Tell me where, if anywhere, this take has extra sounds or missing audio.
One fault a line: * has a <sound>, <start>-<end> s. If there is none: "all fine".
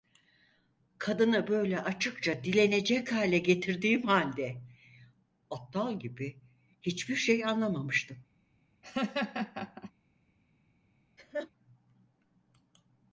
* has a laugh, 8.8-9.9 s
* has a laugh, 11.2-11.5 s